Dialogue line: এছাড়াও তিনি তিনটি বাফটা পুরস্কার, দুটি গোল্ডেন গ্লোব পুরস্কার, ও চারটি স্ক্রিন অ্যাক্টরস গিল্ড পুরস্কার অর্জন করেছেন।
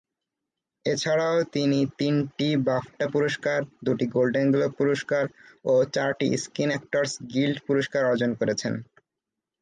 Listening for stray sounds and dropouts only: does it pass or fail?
pass